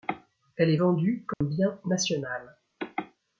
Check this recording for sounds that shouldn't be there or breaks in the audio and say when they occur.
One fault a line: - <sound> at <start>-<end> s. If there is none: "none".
- dropout at 1.3-1.4 s